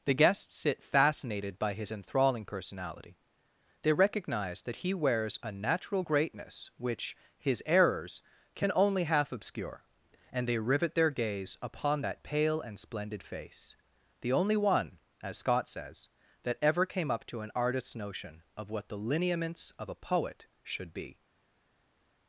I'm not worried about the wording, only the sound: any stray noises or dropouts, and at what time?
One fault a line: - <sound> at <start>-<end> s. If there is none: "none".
none